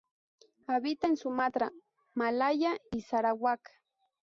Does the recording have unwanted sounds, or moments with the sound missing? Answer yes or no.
no